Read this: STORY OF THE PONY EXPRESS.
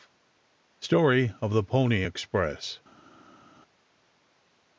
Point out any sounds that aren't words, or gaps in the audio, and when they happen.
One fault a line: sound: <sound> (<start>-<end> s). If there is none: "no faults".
no faults